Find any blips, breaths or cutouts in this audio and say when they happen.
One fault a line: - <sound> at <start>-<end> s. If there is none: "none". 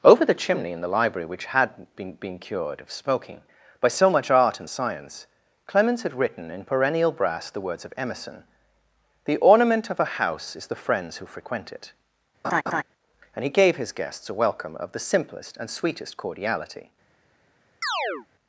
- laugh at 12.4-12.8 s
- chirp at 17.8-18.3 s